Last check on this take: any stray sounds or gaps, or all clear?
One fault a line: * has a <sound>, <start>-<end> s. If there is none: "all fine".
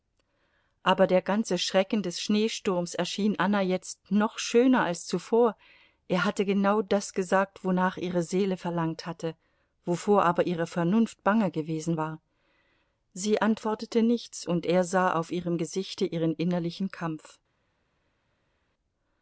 all fine